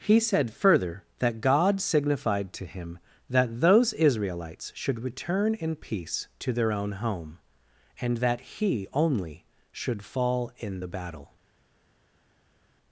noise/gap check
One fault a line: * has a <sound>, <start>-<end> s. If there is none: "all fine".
all fine